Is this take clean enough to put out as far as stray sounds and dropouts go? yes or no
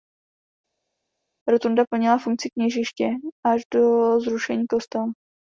yes